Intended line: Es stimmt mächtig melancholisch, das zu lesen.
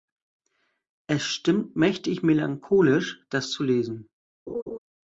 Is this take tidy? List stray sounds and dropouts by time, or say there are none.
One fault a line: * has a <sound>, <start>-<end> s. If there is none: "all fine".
* has a laugh, 4.5-4.8 s